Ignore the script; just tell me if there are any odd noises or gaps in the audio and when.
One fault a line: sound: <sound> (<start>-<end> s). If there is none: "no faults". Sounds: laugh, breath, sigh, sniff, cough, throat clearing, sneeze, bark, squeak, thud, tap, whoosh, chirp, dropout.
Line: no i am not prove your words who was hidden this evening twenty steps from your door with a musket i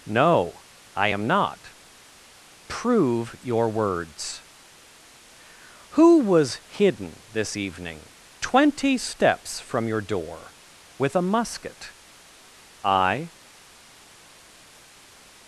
no faults